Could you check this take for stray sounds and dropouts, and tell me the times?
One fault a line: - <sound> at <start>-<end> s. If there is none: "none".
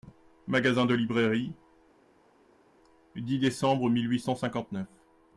none